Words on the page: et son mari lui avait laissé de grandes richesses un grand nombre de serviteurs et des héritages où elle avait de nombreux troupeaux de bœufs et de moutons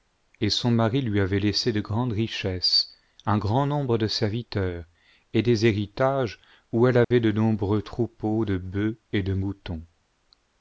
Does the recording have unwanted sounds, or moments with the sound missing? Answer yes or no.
yes